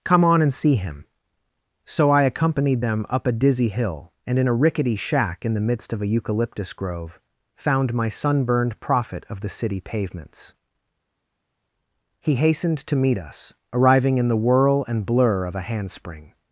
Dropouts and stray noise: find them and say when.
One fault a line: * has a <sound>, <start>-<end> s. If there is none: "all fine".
all fine